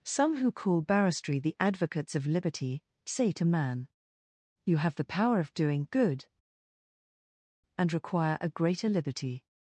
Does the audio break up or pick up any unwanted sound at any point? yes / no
no